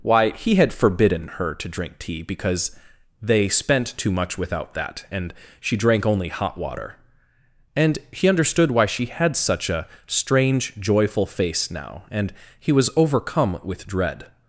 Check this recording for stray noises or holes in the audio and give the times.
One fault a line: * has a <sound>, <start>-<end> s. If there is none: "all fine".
all fine